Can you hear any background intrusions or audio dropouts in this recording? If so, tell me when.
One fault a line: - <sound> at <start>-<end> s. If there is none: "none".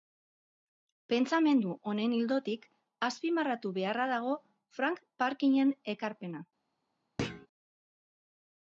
- thud at 7.2-7.5 s